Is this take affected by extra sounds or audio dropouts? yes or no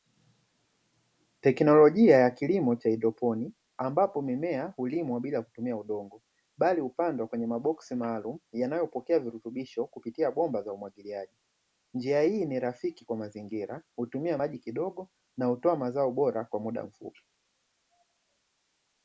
no